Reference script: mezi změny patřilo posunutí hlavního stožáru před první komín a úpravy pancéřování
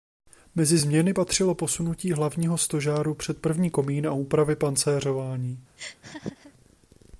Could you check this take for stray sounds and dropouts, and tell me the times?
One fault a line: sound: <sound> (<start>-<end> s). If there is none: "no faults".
sound: laugh (5.8-6.5 s)